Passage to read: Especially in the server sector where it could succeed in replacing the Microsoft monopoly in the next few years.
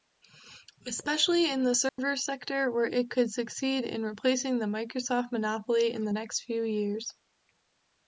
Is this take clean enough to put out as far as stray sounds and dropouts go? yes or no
no